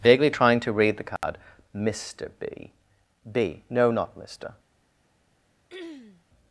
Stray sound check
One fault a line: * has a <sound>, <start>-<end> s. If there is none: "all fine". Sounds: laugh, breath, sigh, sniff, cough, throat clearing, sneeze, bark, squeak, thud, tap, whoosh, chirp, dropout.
* has a dropout, 1.2-1.2 s
* has a throat clearing, 5.7-6.2 s